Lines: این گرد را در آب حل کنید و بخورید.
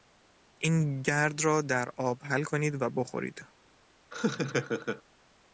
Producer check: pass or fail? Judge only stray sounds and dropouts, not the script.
fail